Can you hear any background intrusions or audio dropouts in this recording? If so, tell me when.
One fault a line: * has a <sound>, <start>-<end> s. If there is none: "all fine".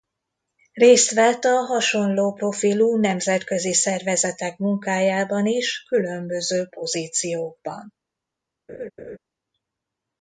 * has a laugh, 8.7-9.2 s